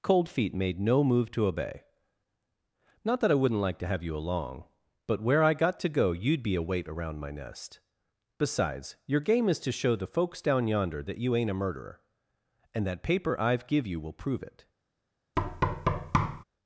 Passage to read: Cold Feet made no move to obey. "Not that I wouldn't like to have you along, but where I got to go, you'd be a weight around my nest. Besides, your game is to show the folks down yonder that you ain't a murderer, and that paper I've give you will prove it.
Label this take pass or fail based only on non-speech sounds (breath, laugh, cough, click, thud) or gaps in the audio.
fail